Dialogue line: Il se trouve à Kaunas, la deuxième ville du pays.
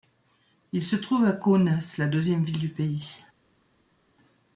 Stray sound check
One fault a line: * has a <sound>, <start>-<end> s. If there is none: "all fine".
all fine